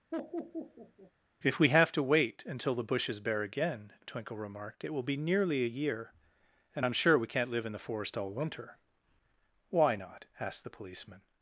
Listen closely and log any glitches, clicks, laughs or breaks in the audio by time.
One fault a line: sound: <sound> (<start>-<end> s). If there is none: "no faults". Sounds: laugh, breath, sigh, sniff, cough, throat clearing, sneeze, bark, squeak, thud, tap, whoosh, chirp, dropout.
sound: laugh (0.1-1.1 s)